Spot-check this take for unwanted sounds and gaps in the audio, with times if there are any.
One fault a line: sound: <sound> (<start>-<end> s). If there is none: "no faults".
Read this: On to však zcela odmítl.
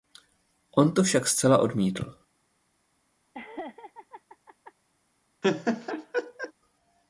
sound: laugh (3.3-4.7 s)
sound: laugh (5.4-6.5 s)